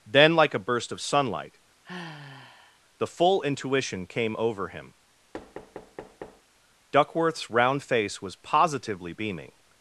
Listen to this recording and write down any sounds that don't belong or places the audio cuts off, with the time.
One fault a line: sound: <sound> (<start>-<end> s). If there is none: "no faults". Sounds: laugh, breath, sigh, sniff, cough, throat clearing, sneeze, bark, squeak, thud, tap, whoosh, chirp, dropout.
sound: sigh (1.8-2.8 s)
sound: thud (5.3-6.4 s)